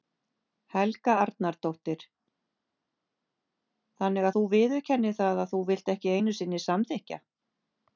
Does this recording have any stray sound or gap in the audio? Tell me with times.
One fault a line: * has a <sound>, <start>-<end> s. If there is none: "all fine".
all fine